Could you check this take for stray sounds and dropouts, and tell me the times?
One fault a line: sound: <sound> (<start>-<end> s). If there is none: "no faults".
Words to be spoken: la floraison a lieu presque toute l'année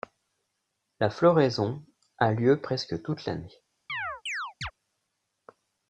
sound: chirp (3.9-4.7 s)